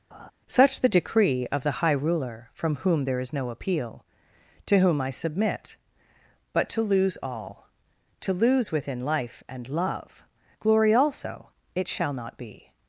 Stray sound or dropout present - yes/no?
yes